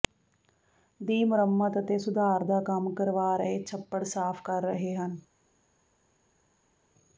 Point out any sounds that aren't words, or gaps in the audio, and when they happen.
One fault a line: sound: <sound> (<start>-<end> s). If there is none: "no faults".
no faults